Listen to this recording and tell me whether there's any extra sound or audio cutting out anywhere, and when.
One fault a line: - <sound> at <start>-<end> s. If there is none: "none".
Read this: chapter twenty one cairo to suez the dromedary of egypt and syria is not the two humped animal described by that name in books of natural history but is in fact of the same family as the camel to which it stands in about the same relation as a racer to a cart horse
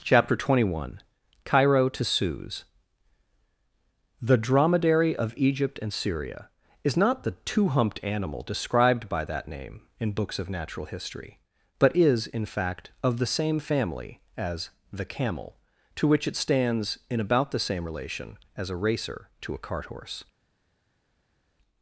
none